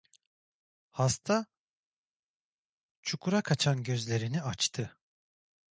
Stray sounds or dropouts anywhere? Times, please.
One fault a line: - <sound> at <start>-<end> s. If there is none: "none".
none